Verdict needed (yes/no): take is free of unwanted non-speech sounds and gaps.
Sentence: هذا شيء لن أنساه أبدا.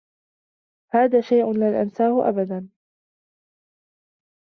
yes